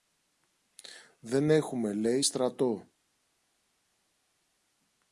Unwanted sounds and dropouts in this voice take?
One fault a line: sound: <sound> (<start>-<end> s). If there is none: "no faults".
no faults